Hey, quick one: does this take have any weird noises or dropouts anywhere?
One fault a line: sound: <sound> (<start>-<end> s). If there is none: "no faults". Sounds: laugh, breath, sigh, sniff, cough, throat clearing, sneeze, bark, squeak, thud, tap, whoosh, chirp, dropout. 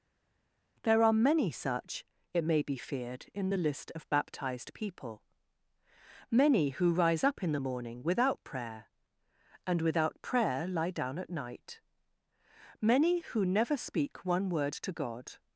no faults